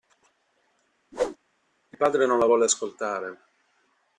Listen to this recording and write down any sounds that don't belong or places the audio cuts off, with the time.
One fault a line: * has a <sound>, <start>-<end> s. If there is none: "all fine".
* has a whoosh, 1.1-1.4 s